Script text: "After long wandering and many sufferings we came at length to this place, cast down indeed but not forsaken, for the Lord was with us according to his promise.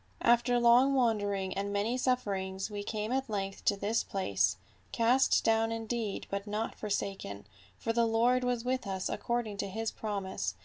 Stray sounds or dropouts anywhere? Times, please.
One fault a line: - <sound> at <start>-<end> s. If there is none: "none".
none